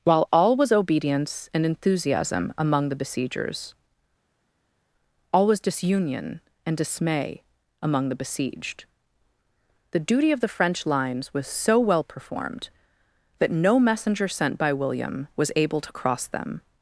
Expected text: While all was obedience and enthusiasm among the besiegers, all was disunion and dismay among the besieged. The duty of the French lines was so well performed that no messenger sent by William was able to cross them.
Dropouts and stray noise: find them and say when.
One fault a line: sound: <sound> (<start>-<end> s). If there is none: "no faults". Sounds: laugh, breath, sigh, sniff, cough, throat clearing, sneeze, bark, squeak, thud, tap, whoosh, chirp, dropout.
no faults